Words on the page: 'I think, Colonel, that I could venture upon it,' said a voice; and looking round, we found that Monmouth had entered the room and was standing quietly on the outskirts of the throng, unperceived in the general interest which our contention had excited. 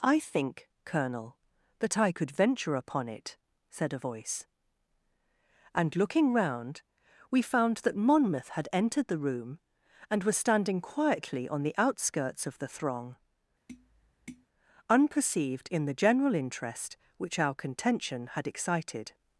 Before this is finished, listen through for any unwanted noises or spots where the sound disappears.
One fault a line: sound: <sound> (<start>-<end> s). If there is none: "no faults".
sound: tap (13.7-14.5 s)